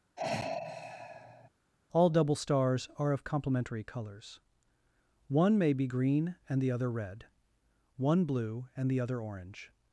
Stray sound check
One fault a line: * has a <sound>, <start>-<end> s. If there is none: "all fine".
* has a sigh, 0.2-1.5 s